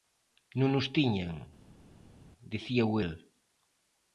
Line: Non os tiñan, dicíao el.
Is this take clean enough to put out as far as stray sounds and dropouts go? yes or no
yes